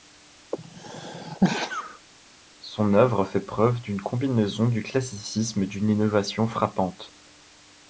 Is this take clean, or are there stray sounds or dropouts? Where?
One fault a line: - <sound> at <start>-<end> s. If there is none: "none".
- sneeze at 0.5-2.1 s